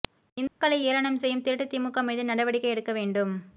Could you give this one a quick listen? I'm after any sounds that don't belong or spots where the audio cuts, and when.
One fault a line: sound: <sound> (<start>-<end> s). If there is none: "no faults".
sound: dropout (0.5-0.6 s)